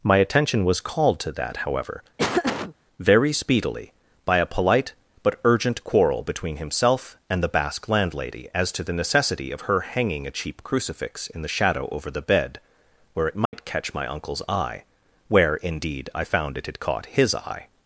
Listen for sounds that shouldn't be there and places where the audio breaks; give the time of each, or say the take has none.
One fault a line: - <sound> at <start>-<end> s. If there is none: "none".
- laugh at 2.2-2.7 s
- dropout at 13.5-13.5 s